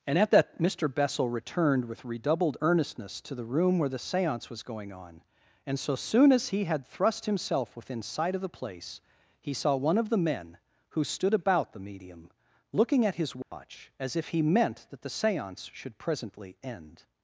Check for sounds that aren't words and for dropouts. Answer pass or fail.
fail